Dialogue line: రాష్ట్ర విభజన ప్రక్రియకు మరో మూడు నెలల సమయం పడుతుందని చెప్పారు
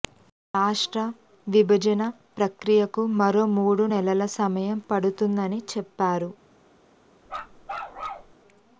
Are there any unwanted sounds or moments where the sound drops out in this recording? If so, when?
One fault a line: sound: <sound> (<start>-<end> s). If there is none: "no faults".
sound: bark (7.3-8.3 s)